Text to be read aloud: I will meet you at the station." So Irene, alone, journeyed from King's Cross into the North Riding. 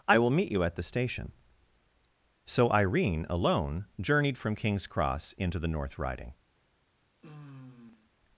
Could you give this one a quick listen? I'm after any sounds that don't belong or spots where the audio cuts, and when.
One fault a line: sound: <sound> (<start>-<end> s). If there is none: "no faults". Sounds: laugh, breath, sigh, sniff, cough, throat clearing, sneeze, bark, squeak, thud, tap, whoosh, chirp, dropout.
sound: sigh (7.2-8.1 s)